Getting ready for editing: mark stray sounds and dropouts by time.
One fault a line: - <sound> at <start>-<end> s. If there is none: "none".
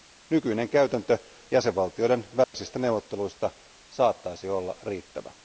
- dropout at 2.4-2.5 s